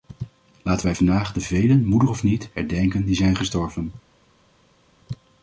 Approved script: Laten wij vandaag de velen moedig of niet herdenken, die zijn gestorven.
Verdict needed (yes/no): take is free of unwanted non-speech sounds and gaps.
yes